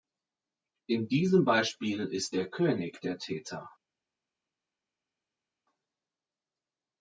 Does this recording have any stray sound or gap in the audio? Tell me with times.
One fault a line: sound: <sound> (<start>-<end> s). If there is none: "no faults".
no faults